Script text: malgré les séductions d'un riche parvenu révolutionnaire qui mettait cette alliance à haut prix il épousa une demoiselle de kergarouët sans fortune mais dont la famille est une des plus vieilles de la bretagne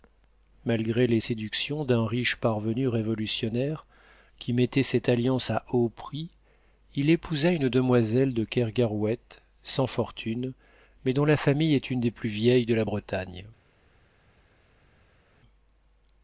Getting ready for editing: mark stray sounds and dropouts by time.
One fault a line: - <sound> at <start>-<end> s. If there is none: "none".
none